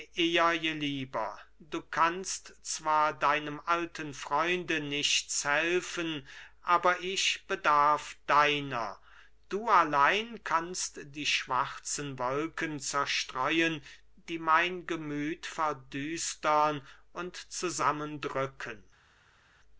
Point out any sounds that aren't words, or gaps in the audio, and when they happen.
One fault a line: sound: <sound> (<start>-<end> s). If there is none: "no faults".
no faults